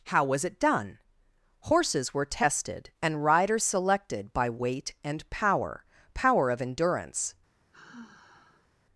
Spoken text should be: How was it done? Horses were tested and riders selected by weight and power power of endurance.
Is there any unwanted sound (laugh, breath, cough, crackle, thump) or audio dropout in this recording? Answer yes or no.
yes